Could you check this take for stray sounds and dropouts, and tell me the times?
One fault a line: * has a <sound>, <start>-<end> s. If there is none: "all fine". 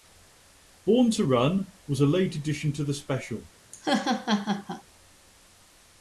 * has a laugh, 3.7-4.8 s